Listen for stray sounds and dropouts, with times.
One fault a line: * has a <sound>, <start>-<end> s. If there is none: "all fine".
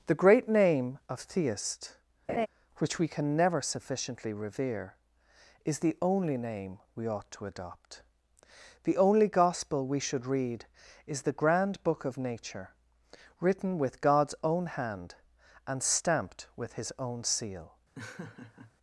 * has a laugh, 2.3-2.5 s
* has a laugh, 18.0-18.7 s